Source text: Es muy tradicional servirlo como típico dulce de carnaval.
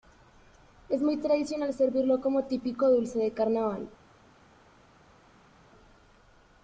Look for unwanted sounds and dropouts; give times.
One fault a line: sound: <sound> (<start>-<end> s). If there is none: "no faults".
no faults